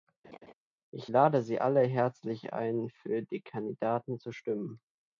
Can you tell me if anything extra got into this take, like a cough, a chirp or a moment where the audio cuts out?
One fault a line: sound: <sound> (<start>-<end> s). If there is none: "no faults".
sound: laugh (0.2-0.5 s)